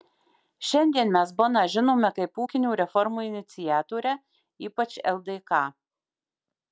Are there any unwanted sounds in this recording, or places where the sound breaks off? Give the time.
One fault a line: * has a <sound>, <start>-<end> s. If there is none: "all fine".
all fine